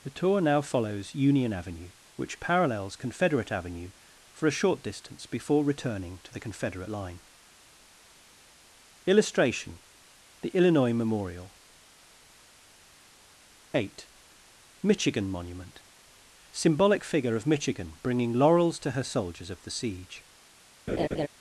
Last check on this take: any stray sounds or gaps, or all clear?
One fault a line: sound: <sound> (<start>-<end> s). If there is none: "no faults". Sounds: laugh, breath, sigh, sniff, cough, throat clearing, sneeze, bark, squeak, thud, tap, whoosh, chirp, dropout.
sound: laugh (20.9-21.3 s)